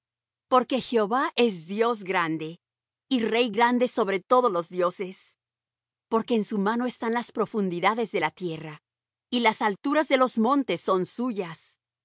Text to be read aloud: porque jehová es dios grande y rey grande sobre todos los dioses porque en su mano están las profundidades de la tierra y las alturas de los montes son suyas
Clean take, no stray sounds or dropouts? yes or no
yes